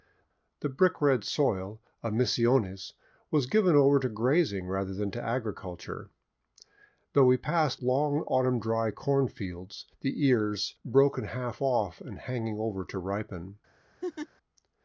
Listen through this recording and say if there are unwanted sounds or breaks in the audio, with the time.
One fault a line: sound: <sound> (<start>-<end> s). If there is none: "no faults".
sound: laugh (14.0-14.3 s)